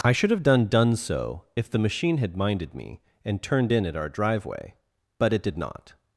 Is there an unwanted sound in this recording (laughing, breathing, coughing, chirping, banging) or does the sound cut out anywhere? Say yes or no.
no